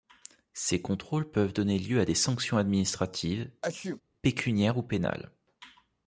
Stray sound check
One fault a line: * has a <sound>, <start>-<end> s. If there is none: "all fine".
* has a sneeze, 3.6-4.0 s